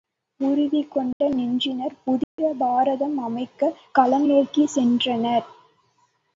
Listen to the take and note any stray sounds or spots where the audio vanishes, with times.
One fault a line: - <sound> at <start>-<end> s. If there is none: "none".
- dropout at 1.1-1.2 s
- dropout at 2.2-2.4 s